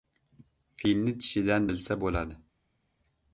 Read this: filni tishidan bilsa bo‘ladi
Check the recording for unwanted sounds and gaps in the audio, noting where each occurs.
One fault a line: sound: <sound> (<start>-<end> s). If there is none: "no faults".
no faults